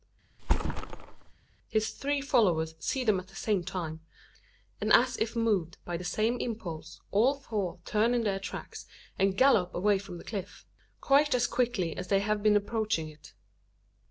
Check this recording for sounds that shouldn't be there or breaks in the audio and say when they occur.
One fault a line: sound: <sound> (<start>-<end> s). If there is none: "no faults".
sound: thud (0.4-1.3 s)